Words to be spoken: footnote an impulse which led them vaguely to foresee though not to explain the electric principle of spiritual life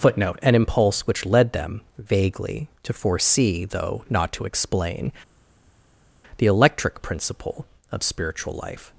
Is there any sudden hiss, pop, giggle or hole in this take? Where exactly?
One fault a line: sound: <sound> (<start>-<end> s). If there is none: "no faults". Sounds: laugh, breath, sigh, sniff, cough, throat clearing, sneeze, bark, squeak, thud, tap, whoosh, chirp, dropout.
no faults